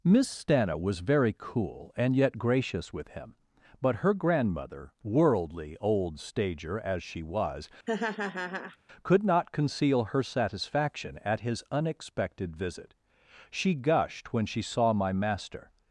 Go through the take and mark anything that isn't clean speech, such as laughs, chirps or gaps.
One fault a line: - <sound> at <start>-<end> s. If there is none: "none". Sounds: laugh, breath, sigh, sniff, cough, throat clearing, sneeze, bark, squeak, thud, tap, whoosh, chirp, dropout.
- laugh at 7.9-8.8 s